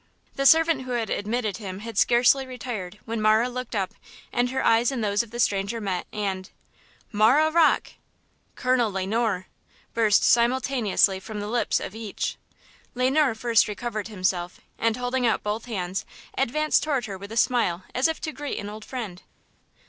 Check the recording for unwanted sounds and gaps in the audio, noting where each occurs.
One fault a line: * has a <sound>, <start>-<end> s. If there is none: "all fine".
all fine